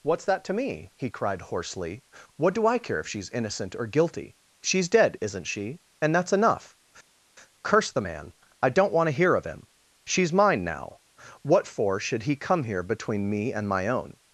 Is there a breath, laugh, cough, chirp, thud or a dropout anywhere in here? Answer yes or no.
no